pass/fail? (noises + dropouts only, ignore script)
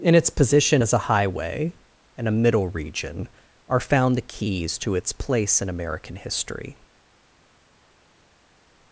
pass